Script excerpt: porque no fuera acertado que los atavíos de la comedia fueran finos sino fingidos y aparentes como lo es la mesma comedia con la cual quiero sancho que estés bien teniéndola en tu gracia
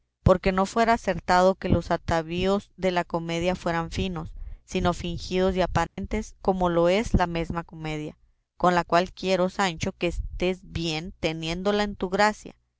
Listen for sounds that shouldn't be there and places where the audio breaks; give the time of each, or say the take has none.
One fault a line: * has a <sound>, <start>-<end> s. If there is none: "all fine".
* has a dropout, 5.9-6.0 s